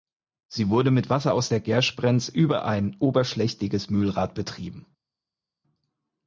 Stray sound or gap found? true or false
false